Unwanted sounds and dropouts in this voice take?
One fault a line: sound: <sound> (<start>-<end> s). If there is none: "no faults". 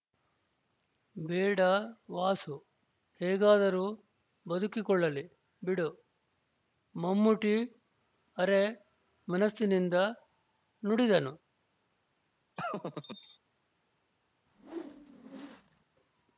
sound: laugh (12.6-13.4 s)
sound: whoosh (14.5-15.8 s)